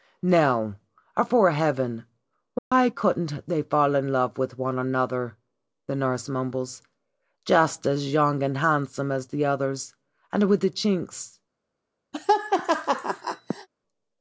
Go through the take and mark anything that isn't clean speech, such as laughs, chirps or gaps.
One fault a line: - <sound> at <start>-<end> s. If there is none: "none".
- dropout at 2.6-2.7 s
- laugh at 12.1-13.7 s